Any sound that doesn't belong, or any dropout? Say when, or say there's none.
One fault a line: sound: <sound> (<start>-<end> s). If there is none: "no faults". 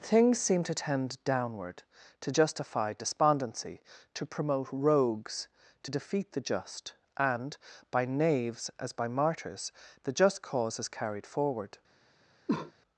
sound: cough (12.5-12.7 s)